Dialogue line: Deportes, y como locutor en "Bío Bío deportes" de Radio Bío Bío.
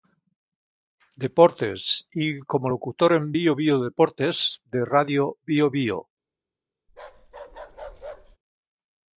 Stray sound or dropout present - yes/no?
yes